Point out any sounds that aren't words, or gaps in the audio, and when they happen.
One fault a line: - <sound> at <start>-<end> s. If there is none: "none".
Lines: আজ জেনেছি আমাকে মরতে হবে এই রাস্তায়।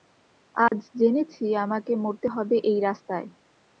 - dropout at 0.7-0.7 s